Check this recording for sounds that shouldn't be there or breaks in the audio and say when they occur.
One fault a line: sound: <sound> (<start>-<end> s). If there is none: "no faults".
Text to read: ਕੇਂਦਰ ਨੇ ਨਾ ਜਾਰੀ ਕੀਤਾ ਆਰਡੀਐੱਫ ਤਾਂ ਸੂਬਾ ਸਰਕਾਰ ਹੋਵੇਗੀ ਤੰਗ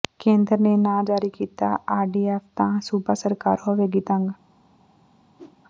sound: whoosh (5.4-5.6 s)